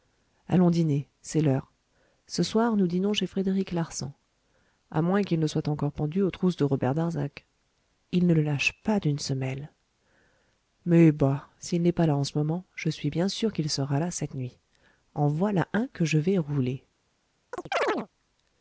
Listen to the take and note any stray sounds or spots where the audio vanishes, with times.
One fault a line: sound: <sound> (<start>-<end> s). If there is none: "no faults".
sound: chirp (17.5-18.1 s)